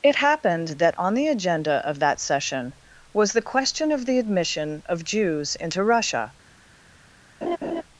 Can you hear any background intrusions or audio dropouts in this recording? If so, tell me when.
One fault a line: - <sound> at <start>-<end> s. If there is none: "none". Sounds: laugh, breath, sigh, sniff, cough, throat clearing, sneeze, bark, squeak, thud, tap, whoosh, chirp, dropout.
- laugh at 7.4-7.8 s